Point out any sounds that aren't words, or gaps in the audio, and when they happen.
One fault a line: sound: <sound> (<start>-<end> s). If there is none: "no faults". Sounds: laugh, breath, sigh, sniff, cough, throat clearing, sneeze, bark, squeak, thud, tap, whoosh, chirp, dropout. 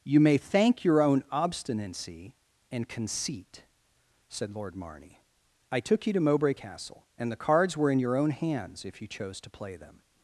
no faults